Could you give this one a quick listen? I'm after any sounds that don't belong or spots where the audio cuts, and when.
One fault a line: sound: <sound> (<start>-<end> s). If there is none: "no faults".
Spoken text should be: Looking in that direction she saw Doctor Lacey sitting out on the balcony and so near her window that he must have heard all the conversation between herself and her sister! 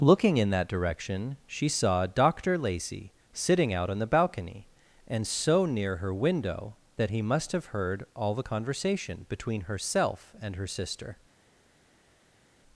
no faults